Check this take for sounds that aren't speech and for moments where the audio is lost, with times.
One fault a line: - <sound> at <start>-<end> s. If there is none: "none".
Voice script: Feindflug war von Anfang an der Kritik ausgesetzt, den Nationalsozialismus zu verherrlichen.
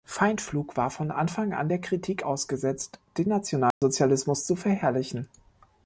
- dropout at 3.7-3.8 s